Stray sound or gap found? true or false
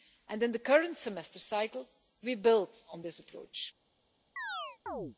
true